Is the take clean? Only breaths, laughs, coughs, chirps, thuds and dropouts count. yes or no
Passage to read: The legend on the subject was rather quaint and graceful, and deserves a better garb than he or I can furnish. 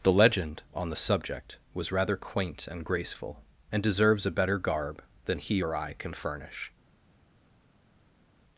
yes